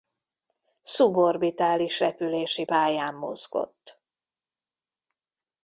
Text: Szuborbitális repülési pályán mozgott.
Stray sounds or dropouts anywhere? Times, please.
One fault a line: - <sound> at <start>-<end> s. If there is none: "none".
none